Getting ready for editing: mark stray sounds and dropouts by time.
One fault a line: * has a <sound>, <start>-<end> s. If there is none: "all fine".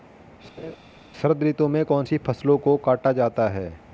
* has a laugh, 0.6-0.8 s